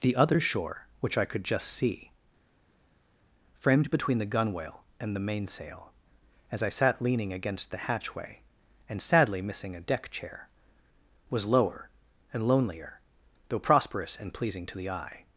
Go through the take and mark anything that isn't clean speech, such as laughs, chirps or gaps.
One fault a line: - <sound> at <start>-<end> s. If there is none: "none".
none